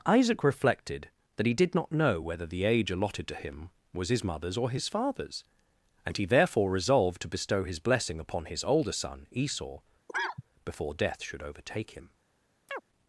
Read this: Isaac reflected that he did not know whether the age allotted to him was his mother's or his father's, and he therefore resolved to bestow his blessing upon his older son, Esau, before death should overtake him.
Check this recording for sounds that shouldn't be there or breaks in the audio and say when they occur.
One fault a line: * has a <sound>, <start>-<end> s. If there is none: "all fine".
* has a cough, 10.1-10.4 s
* has a chirp, 12.7-12.8 s